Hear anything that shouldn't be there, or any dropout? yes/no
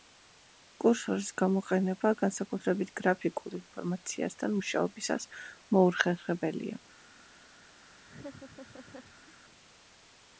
yes